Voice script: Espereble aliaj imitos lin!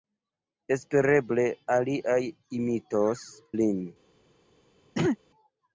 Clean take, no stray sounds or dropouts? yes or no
no